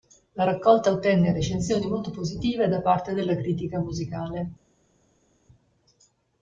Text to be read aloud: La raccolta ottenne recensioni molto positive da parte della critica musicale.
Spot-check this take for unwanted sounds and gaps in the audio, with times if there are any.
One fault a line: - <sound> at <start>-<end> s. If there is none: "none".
none